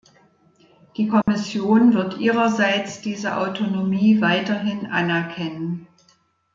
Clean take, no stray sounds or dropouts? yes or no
no